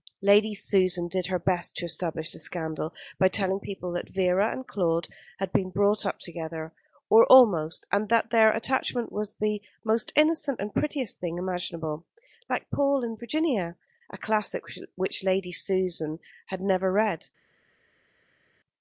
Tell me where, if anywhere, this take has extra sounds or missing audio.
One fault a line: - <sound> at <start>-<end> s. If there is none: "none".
none